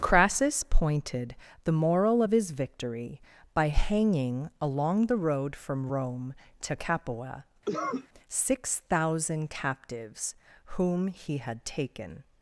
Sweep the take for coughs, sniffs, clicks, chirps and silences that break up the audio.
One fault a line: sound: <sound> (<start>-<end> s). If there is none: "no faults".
sound: cough (7.6-8.1 s)